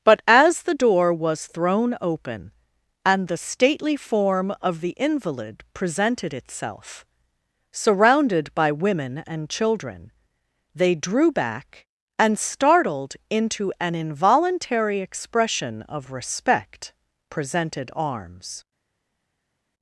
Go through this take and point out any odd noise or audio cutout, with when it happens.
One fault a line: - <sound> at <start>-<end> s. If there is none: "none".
none